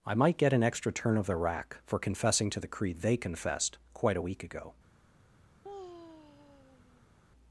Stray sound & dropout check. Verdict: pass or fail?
fail